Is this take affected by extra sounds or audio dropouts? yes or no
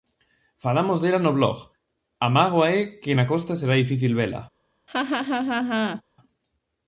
yes